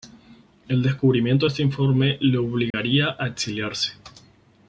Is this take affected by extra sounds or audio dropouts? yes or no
yes